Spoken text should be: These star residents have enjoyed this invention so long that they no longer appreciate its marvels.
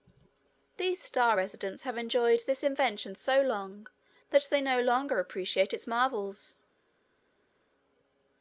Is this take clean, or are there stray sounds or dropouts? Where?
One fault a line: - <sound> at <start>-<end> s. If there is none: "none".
none